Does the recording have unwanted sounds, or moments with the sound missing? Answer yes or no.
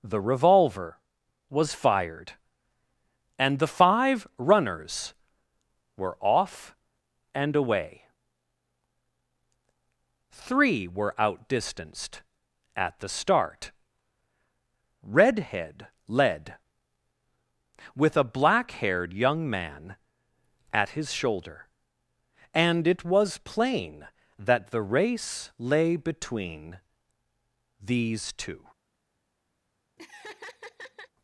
yes